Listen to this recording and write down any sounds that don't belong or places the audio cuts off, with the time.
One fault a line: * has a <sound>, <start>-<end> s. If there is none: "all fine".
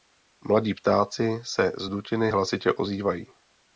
all fine